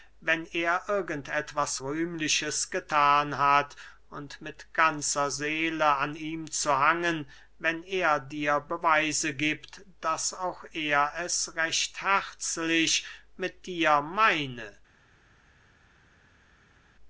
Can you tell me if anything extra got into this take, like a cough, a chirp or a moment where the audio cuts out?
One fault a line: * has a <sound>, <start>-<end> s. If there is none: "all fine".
all fine